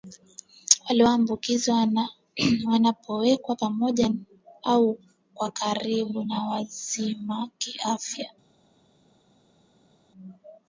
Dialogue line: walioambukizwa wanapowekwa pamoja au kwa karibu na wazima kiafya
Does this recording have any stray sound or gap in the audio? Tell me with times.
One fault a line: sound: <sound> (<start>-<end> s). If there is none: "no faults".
no faults